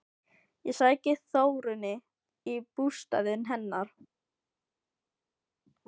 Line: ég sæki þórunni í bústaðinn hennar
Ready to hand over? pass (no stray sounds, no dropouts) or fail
pass